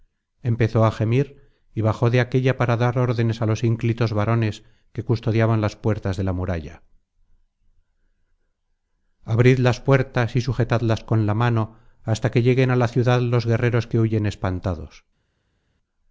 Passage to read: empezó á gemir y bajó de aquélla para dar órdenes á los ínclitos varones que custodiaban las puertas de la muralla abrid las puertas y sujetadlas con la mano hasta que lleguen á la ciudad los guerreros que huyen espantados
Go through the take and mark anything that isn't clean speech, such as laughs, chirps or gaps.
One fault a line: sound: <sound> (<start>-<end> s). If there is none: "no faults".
no faults